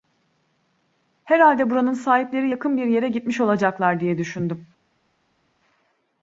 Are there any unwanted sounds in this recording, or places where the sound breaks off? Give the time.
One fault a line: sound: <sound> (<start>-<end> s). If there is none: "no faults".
no faults